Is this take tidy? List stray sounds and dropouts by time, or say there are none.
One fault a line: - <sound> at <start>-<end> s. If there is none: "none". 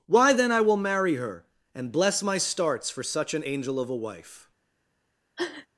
- sniff at 5.4-5.7 s